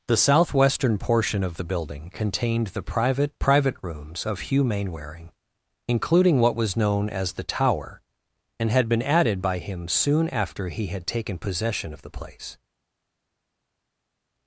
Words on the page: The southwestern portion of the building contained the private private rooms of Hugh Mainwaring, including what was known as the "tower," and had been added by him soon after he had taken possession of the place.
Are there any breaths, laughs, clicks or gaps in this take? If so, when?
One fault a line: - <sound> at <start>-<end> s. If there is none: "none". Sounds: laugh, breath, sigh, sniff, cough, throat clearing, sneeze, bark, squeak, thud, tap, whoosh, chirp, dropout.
none